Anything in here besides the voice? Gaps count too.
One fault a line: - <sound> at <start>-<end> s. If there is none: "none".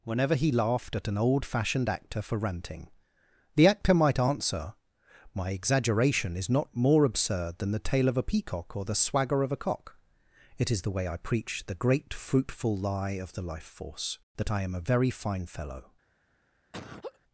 - laugh at 16.7-17.2 s